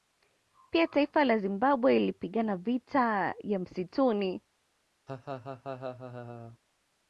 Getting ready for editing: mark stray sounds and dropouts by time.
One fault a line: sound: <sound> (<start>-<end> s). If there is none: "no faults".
sound: laugh (5.1-6.6 s)